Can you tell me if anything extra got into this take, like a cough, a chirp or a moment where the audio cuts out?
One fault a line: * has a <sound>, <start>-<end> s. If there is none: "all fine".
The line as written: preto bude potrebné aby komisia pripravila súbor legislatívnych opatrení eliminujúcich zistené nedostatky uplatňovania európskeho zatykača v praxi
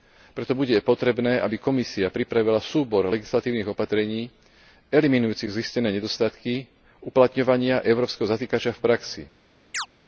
* has a chirp, 9.7-9.9 s